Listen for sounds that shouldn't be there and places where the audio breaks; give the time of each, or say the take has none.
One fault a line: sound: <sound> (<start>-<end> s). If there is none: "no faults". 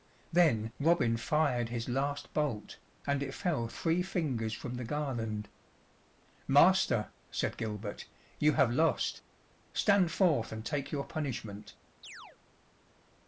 sound: chirp (12.0-12.4 s)